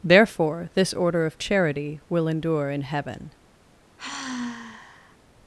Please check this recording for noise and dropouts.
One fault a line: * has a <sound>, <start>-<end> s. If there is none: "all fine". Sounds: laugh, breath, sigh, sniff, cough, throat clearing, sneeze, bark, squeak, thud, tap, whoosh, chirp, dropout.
* has a sigh, 4.0-5.2 s